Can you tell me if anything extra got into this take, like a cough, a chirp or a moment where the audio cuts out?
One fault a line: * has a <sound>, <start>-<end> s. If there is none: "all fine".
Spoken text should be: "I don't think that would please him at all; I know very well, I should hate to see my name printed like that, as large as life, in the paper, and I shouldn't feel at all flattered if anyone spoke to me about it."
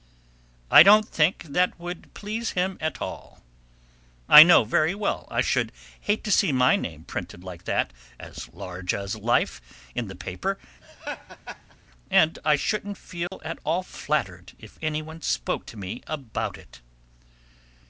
* has a laugh, 10.8-11.8 s
* has a dropout, 13.3-13.3 s